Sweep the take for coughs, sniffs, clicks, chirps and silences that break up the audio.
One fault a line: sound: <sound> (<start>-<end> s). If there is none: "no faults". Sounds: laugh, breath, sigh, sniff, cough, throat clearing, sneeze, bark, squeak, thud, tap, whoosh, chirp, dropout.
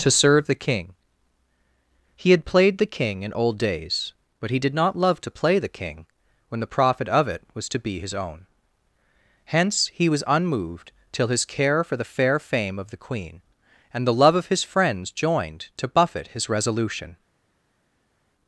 no faults